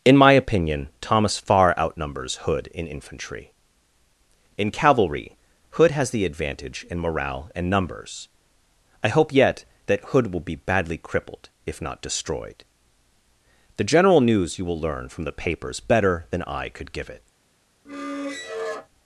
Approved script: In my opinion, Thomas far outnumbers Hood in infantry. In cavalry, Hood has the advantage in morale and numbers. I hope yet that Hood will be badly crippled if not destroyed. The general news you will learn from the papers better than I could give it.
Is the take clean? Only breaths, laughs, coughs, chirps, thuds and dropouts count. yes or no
no